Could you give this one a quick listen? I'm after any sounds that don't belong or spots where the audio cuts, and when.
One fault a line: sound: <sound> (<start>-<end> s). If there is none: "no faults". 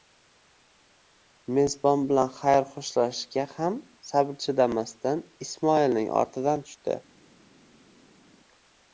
no faults